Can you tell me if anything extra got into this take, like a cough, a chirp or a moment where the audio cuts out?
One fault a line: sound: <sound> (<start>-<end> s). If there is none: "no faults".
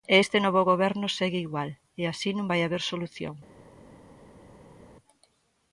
no faults